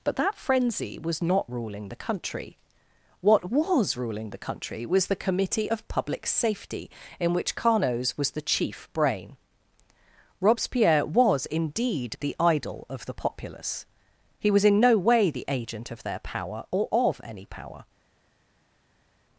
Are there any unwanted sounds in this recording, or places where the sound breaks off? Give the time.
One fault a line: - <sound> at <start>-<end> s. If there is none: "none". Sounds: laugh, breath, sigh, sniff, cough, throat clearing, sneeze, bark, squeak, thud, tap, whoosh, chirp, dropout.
none